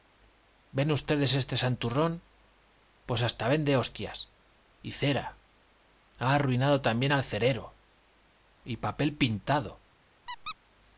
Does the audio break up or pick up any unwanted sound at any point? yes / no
yes